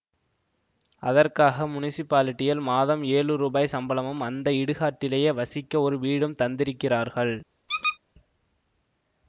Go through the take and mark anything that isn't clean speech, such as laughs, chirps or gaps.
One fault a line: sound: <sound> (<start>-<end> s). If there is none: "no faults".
sound: squeak (7.7-8.0 s)